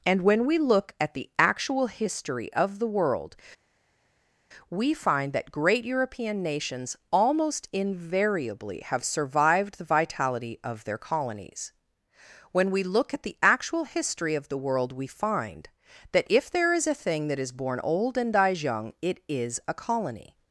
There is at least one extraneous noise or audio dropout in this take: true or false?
false